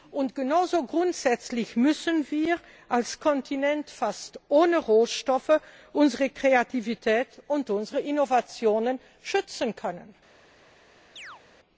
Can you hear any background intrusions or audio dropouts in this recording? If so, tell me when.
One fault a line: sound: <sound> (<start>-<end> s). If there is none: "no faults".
sound: chirp (11.2-11.4 s)